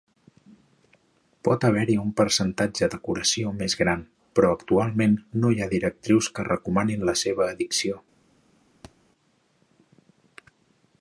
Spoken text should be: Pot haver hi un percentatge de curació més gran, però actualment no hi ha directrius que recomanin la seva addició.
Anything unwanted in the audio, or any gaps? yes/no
yes